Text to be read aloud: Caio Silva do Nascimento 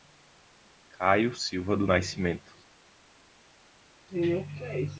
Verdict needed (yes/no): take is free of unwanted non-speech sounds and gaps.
yes